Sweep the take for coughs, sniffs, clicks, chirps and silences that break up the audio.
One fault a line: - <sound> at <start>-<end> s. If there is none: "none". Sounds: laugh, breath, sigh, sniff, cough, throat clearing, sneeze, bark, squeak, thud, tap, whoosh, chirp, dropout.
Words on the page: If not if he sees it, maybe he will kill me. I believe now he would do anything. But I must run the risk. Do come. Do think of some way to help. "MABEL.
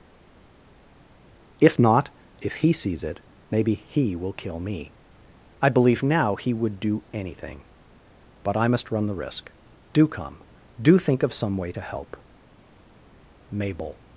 none